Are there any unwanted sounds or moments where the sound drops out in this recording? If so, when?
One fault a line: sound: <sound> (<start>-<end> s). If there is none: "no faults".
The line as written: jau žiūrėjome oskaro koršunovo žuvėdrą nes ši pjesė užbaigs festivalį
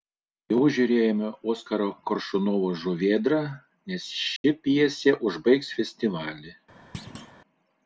sound: dropout (4.4-4.4 s)
sound: thud (6.9-7.3 s)